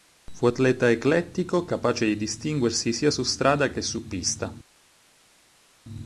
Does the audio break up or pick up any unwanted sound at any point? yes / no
no